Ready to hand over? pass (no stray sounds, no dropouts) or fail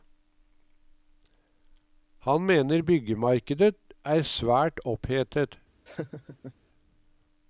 fail